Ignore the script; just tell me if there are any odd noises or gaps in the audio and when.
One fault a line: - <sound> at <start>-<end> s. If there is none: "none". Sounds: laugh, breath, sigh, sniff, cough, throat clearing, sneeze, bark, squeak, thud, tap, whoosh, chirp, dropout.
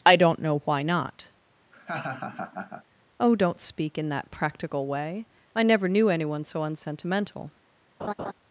- laugh at 1.7-2.8 s
- laugh at 8.0-8.3 s